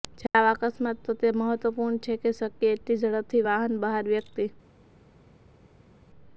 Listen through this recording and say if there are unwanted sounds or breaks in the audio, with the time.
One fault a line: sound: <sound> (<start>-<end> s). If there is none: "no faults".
no faults